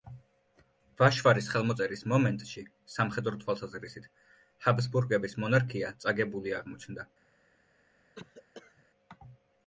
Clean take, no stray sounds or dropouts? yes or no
no